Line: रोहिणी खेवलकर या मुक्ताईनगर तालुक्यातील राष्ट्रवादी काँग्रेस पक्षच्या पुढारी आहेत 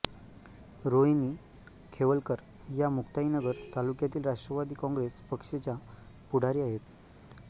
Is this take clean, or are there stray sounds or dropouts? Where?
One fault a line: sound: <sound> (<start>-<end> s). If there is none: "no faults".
no faults